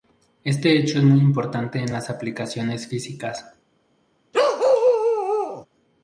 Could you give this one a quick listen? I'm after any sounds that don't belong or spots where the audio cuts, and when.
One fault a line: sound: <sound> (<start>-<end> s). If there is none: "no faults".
sound: bark (4.3-5.7 s)